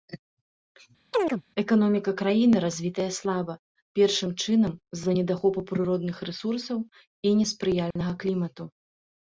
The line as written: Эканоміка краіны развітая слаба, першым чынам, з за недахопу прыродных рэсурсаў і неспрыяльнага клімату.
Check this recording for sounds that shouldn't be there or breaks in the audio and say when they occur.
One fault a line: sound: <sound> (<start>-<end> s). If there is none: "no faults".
sound: chirp (1.1-1.4 s)
sound: dropout (7.9-8.0 s)